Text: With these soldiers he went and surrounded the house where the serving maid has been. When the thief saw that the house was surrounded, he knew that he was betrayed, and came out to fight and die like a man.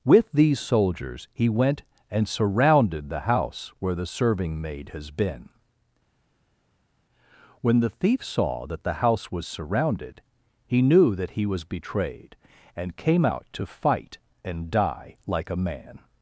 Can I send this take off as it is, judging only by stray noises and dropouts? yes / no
yes